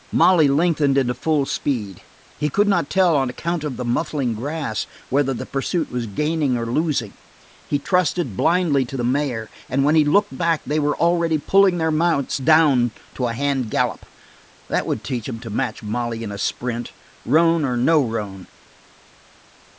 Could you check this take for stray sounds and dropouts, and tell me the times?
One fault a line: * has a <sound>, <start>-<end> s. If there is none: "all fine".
all fine